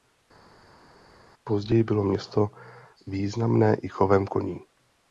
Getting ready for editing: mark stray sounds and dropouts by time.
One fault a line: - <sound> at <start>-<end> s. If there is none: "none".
none